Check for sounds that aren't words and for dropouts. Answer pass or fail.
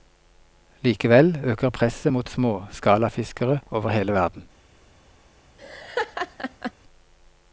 fail